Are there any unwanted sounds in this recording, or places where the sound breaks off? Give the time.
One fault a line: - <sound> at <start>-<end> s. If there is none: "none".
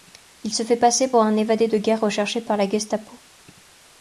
none